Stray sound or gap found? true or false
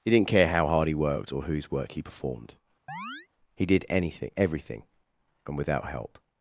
true